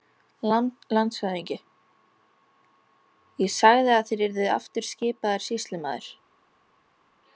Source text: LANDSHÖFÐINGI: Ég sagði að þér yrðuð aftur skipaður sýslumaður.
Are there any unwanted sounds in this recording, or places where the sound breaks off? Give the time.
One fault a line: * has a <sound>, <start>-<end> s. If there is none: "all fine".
all fine